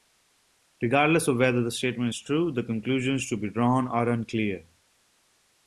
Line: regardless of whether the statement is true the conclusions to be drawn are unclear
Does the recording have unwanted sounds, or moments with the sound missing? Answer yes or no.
no